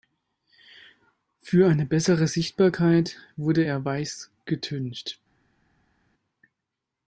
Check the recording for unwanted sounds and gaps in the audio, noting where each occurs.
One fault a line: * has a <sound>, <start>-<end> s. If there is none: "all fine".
all fine